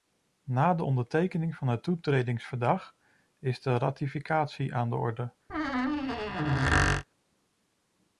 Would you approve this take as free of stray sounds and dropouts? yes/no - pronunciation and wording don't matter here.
no